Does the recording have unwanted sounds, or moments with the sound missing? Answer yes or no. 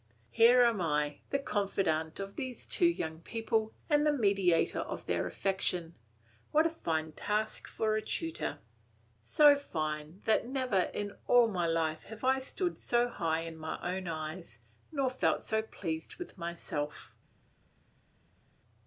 no